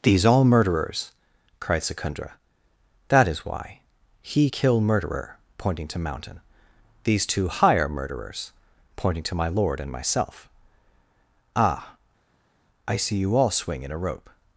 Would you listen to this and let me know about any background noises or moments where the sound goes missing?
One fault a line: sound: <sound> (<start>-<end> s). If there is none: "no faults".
no faults